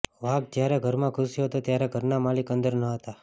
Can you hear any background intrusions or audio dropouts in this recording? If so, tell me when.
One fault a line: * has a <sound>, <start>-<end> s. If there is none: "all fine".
all fine